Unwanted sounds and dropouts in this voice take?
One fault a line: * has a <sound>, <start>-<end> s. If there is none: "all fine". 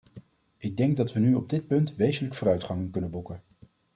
all fine